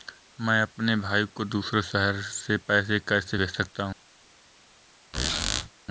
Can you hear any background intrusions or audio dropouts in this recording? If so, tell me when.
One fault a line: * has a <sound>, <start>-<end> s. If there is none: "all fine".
* has a squeak, 5.1-5.7 s